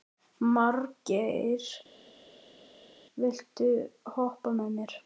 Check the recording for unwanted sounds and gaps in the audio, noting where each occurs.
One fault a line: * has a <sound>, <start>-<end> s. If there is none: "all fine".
all fine